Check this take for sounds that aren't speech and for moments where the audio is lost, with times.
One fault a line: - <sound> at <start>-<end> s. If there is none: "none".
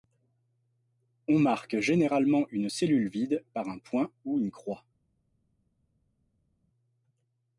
none